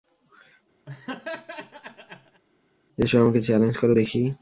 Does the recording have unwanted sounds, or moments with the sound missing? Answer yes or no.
yes